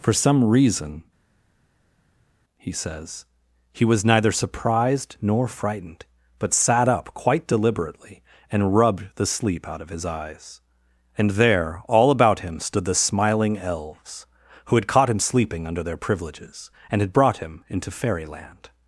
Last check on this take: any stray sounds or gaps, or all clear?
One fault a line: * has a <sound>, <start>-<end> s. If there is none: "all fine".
all fine